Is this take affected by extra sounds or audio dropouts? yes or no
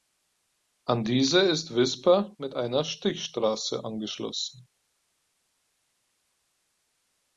no